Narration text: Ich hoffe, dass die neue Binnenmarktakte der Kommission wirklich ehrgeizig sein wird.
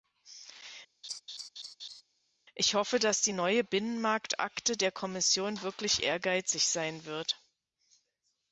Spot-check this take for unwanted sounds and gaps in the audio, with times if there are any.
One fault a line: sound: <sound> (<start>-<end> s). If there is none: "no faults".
sound: laugh (1.0-2.0 s)